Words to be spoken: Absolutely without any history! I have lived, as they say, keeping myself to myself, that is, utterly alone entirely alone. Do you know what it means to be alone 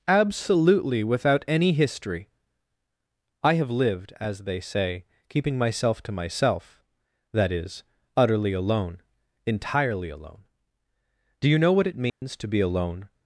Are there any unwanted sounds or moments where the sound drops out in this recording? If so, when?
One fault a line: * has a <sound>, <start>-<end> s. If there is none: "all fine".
* has a dropout, 12.1-12.2 s